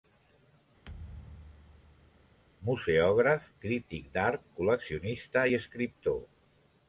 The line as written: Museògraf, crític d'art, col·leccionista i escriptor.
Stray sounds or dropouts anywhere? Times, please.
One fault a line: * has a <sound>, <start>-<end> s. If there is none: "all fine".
* has a thud, 0.9-2.4 s